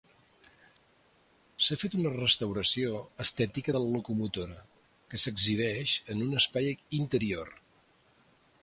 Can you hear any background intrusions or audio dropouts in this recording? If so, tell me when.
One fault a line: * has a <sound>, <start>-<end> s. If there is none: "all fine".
all fine